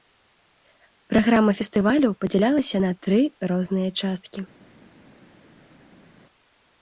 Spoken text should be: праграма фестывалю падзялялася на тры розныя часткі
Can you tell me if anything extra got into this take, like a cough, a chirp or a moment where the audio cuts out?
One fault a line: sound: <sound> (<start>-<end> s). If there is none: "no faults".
no faults